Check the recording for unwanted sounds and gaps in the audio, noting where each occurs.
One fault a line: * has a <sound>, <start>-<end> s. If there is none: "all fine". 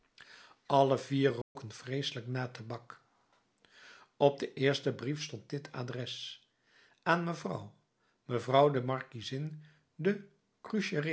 * has a dropout, 1.4-1.6 s